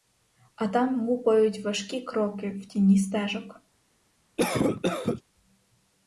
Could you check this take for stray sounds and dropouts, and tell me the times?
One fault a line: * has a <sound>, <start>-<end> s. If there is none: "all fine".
* has a cough, 4.4-5.2 s